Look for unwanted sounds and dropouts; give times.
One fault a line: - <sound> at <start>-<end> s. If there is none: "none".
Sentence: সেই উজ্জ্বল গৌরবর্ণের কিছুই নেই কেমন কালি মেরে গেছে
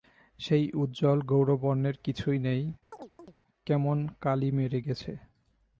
- chirp at 2.9-3.3 s